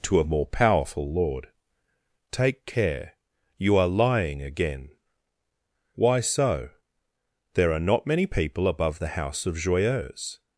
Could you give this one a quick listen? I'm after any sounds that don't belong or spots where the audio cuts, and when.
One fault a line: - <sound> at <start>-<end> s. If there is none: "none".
none